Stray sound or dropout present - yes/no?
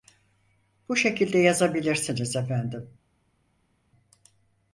no